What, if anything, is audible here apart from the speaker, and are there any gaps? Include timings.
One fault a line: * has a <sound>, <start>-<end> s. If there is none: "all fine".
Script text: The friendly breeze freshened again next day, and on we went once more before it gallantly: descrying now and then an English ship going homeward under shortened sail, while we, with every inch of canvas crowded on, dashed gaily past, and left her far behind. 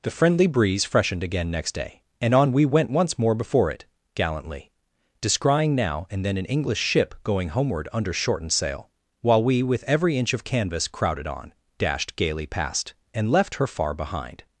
all fine